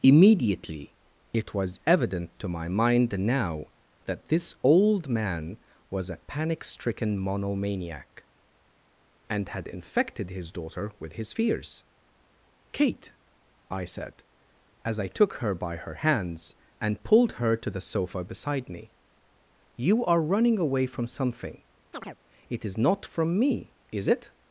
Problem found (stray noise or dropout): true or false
true